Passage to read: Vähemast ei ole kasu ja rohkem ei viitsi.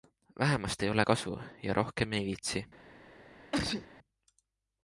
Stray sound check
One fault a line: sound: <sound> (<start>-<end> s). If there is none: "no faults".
sound: sneeze (3.5-3.9 s)